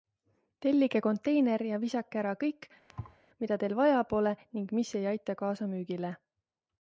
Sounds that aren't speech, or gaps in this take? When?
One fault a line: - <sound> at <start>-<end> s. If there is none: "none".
- thud at 2.9-3.2 s